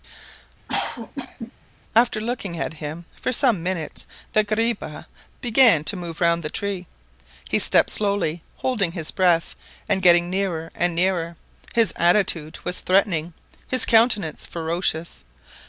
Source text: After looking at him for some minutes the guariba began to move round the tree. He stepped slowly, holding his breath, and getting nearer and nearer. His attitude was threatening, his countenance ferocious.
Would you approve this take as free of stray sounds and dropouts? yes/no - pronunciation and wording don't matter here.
no